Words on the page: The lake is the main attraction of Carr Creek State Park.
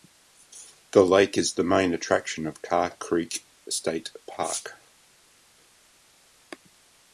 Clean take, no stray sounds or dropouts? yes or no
yes